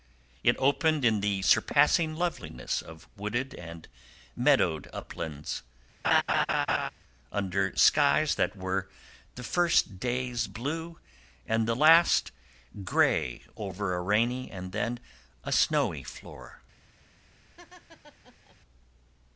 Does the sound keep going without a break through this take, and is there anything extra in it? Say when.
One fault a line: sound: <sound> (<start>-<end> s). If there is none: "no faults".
sound: laugh (6.0-6.9 s)
sound: laugh (17.6-18.6 s)